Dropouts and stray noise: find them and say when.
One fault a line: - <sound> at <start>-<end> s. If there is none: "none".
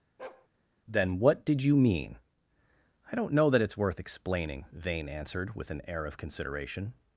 - bark at 0.2-0.5 s